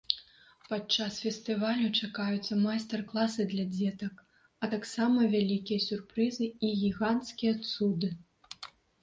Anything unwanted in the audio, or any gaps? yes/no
no